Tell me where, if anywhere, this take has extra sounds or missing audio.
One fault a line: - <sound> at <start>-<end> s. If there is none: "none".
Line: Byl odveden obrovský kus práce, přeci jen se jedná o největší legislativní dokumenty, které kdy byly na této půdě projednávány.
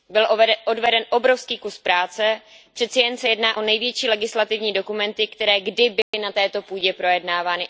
- dropout at 6.0-6.1 s